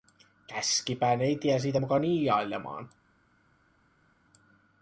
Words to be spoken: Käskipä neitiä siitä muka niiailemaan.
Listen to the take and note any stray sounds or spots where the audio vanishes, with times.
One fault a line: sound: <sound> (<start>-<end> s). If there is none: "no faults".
no faults